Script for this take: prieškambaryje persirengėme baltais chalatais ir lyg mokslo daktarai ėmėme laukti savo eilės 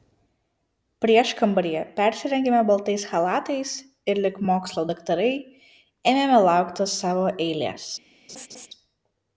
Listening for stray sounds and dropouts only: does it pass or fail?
fail